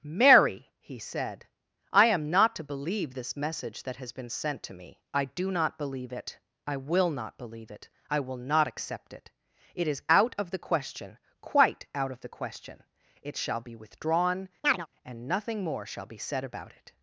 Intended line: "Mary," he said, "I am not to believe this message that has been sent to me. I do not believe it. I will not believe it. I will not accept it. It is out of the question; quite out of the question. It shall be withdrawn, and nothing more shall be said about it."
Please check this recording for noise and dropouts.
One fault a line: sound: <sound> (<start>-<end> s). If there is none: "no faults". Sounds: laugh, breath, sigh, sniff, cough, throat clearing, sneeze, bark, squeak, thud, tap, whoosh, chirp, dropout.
sound: chirp (14.6-14.9 s)